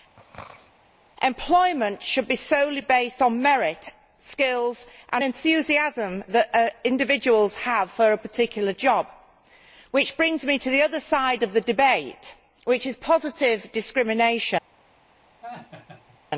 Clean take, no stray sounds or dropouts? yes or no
no